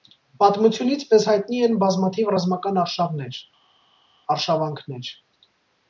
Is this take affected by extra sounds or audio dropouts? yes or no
no